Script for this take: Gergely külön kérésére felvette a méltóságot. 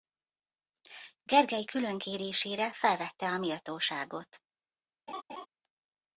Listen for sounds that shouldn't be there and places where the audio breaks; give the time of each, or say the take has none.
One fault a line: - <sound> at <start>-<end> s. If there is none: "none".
- laugh at 5.1-5.5 s